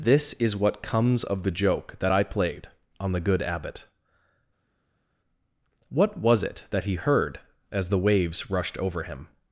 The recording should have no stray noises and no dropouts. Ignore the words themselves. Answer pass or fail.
pass